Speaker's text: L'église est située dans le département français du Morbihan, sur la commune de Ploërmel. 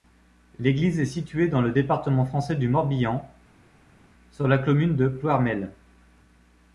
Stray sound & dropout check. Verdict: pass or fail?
pass